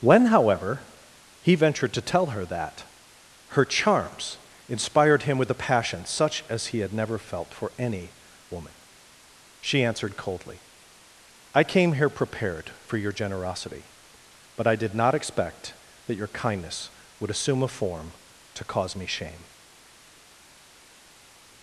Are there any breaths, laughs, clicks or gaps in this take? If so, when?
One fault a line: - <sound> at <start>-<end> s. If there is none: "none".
none